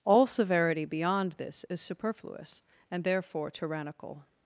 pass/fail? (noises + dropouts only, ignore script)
pass